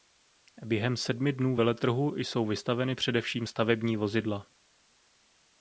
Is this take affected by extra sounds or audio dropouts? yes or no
no